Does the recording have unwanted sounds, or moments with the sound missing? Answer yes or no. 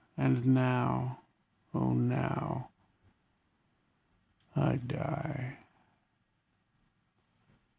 no